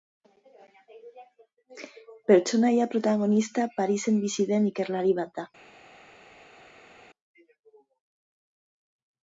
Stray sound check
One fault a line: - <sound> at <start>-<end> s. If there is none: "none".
none